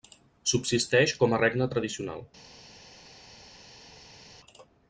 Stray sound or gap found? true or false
false